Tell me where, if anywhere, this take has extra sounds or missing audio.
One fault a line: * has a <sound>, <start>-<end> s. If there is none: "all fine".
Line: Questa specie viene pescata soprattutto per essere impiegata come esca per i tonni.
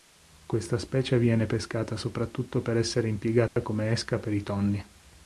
* has a dropout, 3.5-3.6 s